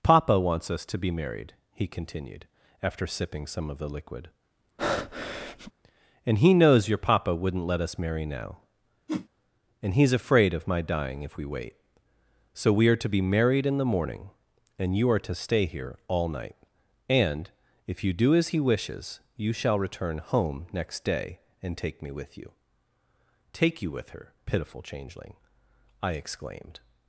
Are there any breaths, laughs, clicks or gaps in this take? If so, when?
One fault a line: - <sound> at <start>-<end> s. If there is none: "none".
- breath at 4.8-5.7 s
- whoosh at 9.1-9.3 s